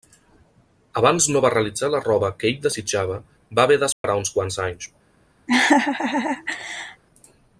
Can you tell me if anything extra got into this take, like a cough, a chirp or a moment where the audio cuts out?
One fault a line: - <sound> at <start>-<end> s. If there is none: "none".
- dropout at 3.9-4.0 s
- laugh at 5.5-7.0 s